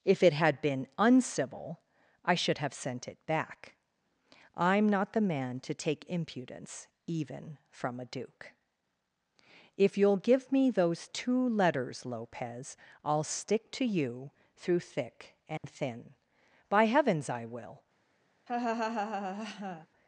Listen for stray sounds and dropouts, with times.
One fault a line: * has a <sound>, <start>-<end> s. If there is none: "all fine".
* has a dropout, 15.6-15.6 s
* has a laugh, 18.5-19.9 s